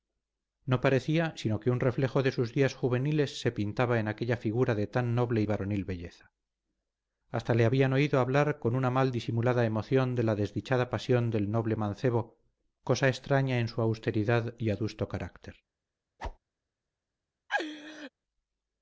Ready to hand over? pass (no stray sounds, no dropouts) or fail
fail